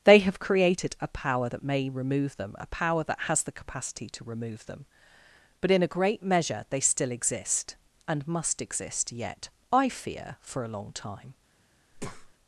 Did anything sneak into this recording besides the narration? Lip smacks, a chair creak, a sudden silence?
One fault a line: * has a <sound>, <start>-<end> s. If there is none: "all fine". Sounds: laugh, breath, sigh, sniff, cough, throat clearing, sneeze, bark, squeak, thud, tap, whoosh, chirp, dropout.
* has a breath, 11.9-12.3 s